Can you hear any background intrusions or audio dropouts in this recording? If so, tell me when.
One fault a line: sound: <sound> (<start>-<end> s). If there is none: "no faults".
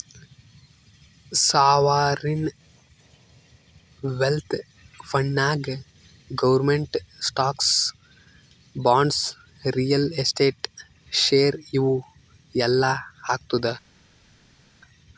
no faults